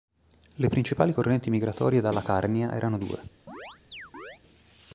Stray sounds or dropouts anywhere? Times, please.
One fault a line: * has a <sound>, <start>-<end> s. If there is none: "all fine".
* has a chirp, 3.5-4.4 s